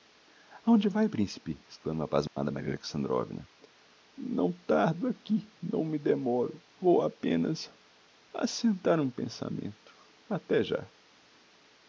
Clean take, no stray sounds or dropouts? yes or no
no